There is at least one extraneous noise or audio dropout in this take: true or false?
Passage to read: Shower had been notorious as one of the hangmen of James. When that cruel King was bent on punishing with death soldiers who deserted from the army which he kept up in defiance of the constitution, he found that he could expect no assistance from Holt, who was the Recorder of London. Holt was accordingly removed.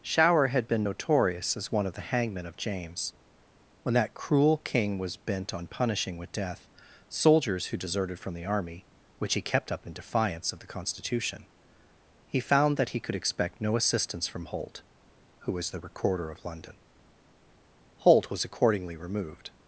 false